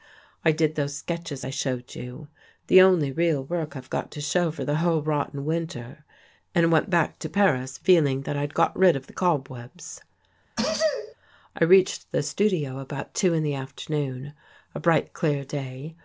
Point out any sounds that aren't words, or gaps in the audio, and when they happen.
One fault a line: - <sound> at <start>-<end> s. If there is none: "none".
- sneeze at 10.6-11.1 s